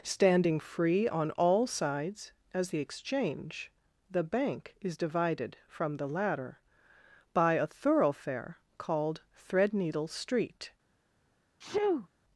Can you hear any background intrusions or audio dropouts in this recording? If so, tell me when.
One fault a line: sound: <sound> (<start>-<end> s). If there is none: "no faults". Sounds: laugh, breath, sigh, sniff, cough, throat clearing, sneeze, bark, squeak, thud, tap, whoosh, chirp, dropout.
sound: sneeze (11.6-12.1 s)